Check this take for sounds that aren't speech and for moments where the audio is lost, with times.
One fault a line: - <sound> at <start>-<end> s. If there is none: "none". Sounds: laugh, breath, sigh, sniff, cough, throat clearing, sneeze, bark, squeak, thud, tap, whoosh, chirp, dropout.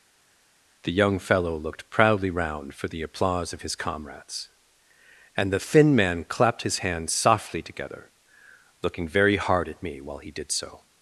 none